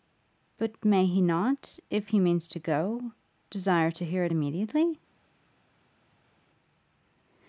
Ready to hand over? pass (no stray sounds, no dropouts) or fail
pass